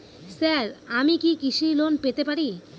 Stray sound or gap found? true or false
false